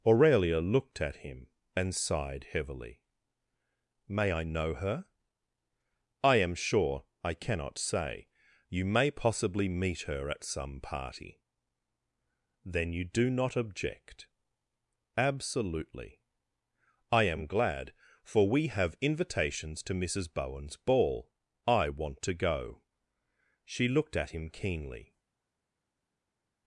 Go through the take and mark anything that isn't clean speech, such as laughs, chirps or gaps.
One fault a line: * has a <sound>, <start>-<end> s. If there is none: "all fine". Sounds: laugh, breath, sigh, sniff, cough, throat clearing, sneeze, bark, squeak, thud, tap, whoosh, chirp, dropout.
all fine